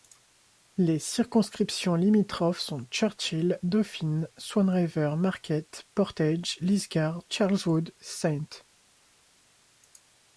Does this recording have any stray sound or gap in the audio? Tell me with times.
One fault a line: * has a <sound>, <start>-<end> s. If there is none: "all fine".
all fine